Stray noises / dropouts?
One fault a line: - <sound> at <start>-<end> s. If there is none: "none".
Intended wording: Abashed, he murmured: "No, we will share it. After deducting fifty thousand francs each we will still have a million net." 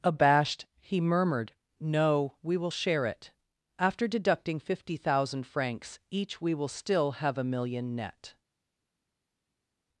none